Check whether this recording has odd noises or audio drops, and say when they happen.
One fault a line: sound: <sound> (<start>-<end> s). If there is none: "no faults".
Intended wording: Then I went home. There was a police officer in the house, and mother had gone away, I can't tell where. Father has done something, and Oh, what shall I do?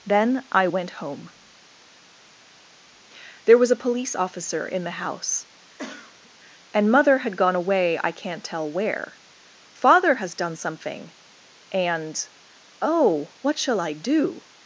sound: cough (5.8-6.3 s)